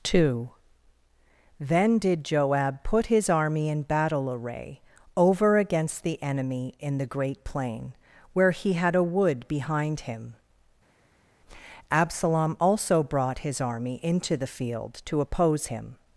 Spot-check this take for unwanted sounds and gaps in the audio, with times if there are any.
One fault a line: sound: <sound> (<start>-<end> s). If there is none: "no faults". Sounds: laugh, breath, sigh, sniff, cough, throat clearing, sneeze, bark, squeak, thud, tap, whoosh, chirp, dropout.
no faults